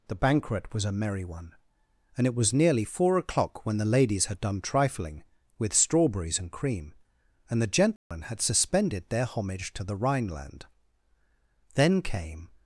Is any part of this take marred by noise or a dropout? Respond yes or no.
yes